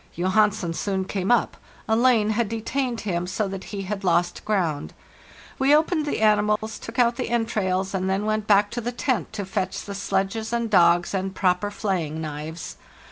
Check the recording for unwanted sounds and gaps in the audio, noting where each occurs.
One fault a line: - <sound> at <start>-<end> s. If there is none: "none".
- dropout at 6.6-6.6 s